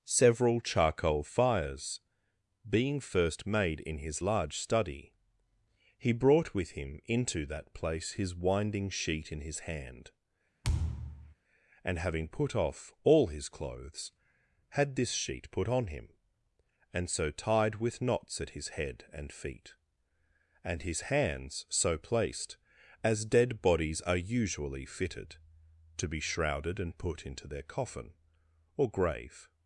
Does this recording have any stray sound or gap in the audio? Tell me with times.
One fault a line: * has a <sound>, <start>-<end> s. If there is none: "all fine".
* has a thud, 10.6-11.3 s